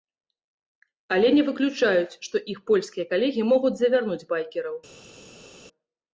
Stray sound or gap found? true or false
false